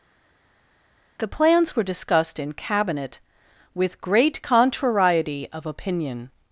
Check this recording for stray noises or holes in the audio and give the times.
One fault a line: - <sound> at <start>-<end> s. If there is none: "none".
none